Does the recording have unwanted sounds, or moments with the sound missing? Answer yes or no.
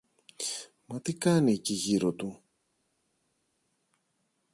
no